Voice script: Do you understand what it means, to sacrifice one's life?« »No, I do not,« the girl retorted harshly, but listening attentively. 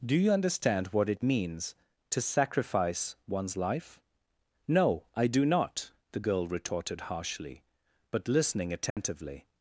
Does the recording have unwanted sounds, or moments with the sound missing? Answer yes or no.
yes